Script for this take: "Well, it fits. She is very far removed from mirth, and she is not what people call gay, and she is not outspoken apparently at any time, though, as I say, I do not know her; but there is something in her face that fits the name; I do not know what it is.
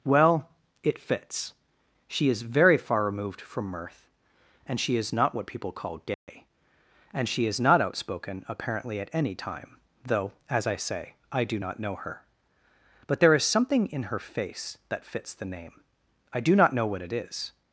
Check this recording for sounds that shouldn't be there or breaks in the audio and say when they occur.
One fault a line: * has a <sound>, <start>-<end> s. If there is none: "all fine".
* has a dropout, 6.1-6.3 s